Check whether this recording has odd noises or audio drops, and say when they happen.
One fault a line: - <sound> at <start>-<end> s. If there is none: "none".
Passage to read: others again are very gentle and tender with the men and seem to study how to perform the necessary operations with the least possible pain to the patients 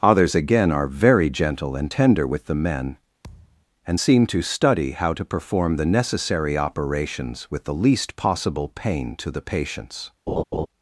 - thud at 3.2-3.7 s
- laugh at 10.3-10.7 s